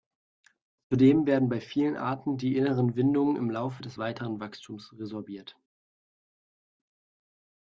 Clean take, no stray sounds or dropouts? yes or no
yes